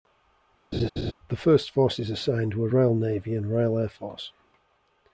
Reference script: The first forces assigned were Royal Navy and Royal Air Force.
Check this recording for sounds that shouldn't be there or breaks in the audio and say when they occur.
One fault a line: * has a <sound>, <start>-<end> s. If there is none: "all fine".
* has a laugh, 0.7-1.1 s